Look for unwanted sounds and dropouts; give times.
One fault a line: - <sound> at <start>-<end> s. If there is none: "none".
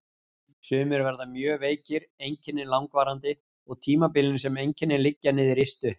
none